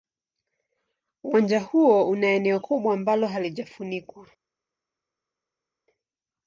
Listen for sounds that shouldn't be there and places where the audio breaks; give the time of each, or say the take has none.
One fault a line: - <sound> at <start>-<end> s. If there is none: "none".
none